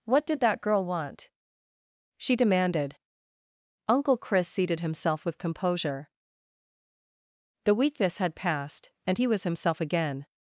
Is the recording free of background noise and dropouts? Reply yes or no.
yes